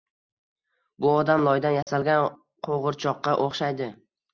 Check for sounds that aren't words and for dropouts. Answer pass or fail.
fail